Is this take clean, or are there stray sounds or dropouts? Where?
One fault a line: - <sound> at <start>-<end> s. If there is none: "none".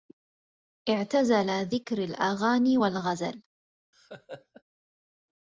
- laugh at 3.9-4.6 s